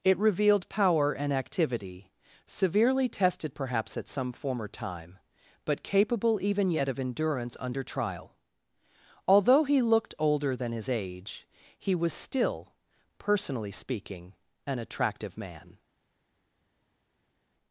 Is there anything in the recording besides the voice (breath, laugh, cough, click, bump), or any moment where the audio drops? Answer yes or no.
no